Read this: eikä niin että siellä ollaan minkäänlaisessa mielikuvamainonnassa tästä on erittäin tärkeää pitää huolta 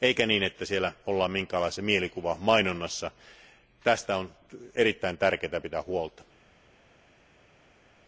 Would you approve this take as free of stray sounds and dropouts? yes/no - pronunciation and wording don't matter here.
yes